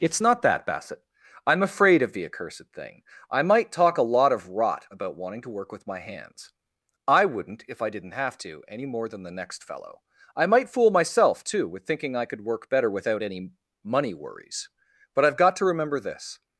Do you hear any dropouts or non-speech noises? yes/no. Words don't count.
no